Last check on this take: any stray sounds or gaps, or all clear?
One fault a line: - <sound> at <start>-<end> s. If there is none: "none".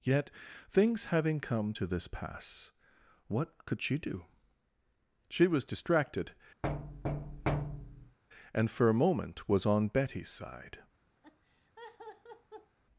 - thud at 6.6-8.2 s
- laugh at 11.2-12.8 s